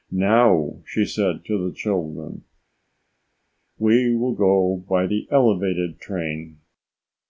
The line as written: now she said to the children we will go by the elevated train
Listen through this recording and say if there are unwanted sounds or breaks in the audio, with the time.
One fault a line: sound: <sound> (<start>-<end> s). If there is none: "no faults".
no faults